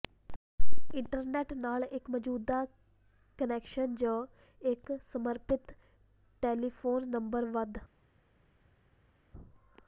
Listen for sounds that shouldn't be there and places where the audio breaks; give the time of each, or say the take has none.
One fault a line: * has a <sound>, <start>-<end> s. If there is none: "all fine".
all fine